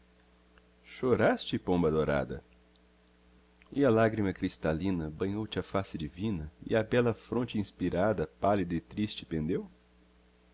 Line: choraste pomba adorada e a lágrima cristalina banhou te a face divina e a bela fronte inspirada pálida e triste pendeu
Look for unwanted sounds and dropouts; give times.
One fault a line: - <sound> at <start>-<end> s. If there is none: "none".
none